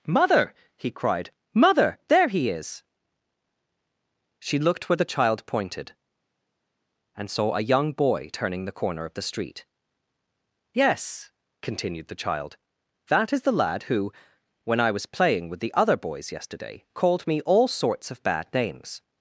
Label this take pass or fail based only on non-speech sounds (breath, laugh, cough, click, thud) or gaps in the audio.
pass